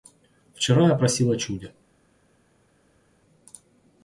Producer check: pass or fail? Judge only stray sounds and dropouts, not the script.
pass